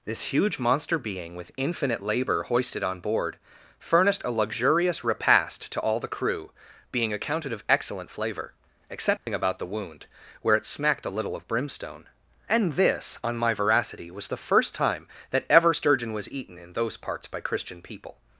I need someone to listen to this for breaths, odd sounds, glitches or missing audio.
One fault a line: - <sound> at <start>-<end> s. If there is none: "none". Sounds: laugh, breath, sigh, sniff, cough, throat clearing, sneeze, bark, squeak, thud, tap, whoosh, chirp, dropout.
- dropout at 9.2-9.3 s